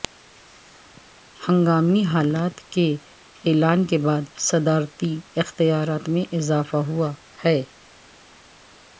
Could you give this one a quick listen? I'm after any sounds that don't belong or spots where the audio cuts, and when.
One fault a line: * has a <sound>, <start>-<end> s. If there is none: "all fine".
all fine